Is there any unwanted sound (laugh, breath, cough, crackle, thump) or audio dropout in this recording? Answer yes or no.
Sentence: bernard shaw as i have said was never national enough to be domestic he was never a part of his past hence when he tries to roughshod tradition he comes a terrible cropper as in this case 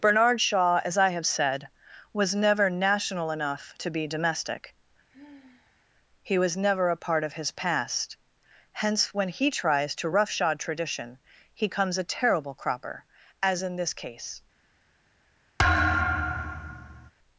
yes